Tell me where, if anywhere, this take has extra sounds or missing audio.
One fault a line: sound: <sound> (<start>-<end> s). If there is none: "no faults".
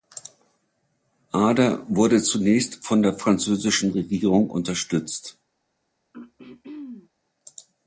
sound: throat clearing (6.1-7.1 s)